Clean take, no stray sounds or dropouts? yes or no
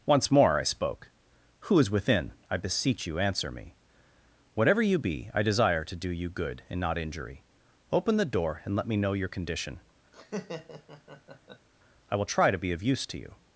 no